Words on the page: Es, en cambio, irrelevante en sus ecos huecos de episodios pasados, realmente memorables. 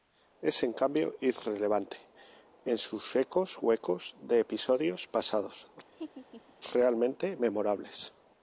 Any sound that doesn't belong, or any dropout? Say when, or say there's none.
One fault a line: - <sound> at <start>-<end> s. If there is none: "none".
- laugh at 5.9-6.6 s